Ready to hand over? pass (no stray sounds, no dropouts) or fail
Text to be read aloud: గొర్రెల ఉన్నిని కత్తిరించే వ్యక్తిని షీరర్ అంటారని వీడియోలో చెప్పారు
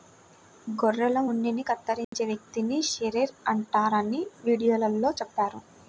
fail